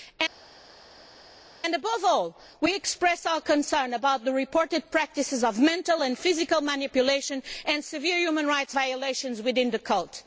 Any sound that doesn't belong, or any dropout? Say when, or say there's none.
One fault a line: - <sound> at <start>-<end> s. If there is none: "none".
none